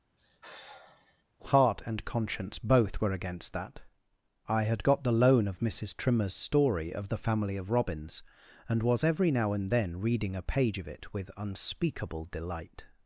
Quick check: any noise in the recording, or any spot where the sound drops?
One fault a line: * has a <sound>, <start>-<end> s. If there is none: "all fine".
* has a sigh, 0.2-1.2 s